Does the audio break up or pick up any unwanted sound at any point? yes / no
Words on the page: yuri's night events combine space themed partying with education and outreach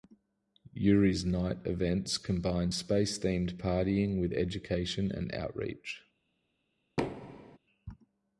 yes